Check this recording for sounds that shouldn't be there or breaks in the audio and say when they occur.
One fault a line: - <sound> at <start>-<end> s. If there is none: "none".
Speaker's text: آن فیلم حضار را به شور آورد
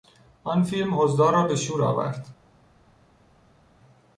none